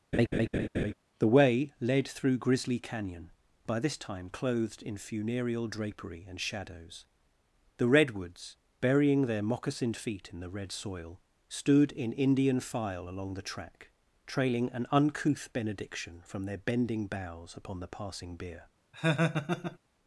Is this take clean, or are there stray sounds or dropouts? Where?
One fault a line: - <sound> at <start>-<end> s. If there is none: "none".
- laugh at 0.1-0.9 s
- laugh at 18.9-19.8 s